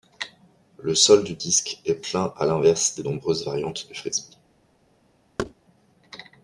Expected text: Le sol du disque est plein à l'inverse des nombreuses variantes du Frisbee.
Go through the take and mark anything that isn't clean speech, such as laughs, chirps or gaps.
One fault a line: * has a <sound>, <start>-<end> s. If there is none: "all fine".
* has a thud, 5.4-5.5 s